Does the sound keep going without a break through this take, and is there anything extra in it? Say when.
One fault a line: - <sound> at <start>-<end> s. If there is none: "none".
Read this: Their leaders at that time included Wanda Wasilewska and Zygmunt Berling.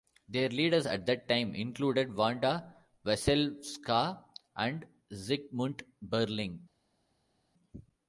none